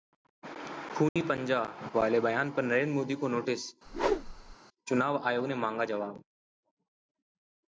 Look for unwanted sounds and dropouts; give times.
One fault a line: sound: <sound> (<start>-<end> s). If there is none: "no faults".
sound: dropout (1.1-1.2 s)
sound: whoosh (3.9-4.6 s)